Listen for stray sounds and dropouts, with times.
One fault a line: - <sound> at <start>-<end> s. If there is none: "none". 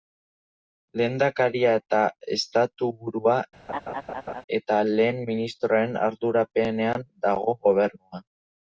- laugh at 3.7-4.4 s